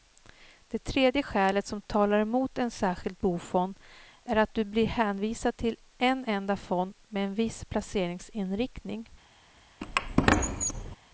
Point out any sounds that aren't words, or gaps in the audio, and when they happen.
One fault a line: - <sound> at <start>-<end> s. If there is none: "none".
- squeak at 9.8-11.0 s